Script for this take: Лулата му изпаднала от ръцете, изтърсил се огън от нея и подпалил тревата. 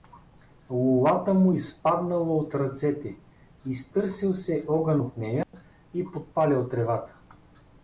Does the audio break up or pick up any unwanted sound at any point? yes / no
yes